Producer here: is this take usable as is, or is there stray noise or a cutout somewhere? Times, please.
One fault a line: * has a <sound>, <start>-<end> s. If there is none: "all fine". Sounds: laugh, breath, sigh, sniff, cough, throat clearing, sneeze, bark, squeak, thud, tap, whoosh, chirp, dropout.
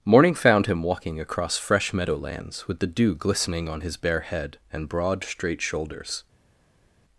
all fine